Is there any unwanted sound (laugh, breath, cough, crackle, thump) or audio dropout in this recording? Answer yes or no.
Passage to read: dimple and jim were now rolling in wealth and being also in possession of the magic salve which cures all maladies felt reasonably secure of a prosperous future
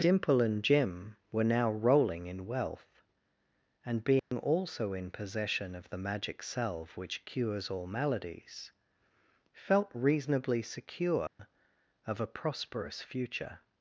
yes